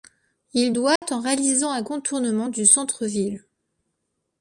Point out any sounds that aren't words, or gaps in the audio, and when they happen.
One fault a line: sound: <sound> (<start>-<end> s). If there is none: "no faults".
sound: dropout (1.0-1.0 s)